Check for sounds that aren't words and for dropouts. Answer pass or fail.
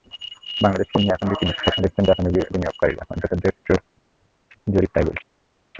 pass